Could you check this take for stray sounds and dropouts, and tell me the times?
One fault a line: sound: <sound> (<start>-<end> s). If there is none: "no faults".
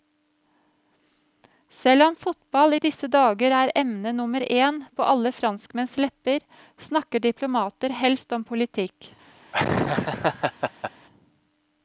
sound: laugh (9.5-10.9 s)